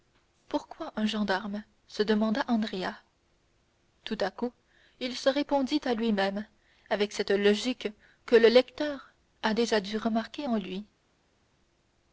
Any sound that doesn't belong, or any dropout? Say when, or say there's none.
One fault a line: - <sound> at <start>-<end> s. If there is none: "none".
none